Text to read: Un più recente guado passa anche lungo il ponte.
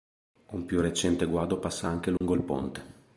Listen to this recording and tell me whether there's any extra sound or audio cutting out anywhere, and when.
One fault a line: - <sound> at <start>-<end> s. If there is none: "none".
- dropout at 2.2-2.2 s